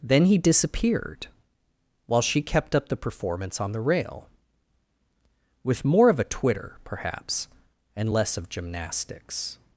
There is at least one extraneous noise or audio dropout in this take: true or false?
false